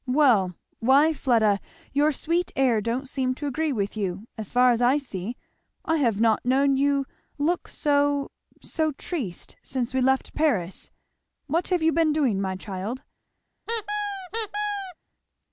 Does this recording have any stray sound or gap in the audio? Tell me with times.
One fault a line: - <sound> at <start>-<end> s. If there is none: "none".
- squeak at 13.7-15.0 s